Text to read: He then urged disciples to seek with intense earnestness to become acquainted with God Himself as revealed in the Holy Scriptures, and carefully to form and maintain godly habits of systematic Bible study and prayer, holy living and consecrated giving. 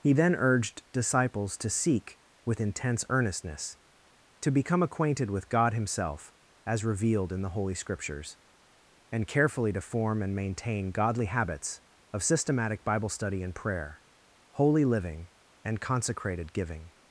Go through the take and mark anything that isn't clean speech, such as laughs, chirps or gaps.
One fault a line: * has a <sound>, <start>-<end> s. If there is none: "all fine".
all fine